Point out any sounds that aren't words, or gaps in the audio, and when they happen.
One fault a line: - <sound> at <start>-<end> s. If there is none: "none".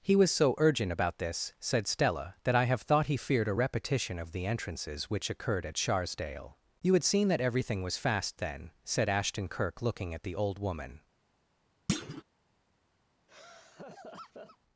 - thud at 11.9-12.2 s
- laugh at 13.3-14.6 s